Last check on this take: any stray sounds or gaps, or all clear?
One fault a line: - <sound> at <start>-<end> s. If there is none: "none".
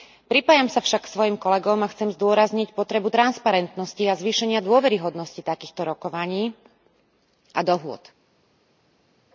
none